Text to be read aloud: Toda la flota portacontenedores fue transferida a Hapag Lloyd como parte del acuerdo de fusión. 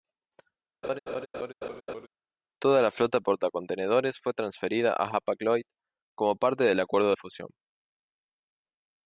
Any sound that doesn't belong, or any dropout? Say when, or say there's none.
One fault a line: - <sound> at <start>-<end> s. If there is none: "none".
- laugh at 0.8-2.1 s